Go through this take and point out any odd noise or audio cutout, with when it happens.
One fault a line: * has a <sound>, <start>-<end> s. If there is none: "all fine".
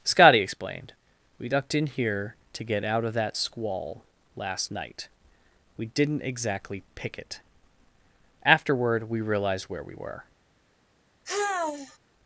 * has a sigh, 11.2-12.0 s